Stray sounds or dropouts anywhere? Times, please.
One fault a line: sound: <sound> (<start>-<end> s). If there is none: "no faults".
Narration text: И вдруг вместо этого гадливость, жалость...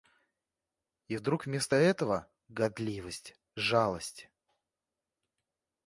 no faults